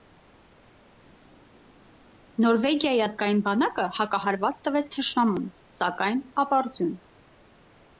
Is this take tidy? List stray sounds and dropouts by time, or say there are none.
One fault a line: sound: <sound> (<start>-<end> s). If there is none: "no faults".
no faults